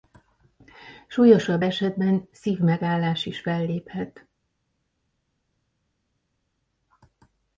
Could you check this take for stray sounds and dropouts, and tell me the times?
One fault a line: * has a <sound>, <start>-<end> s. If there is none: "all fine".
all fine